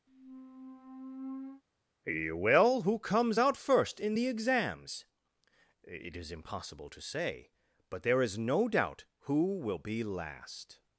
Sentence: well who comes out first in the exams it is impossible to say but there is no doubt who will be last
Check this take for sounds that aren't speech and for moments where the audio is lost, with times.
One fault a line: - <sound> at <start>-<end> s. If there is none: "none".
- squeak at 0.1-1.6 s